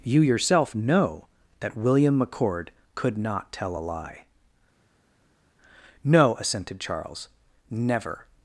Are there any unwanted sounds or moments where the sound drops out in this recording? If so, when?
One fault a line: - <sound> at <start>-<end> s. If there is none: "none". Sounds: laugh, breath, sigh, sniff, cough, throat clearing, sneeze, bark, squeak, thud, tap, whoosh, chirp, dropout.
none